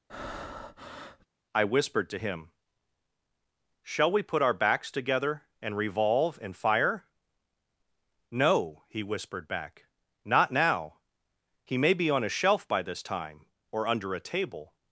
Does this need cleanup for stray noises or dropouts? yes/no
yes